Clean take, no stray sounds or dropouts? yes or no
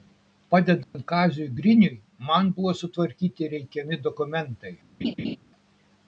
no